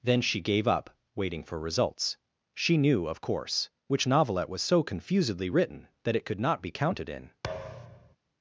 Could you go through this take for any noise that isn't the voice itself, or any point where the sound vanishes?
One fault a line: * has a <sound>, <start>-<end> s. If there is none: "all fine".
* has a thud, 7.4-8.2 s